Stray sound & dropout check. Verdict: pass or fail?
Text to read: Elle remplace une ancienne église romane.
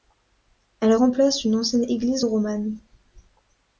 pass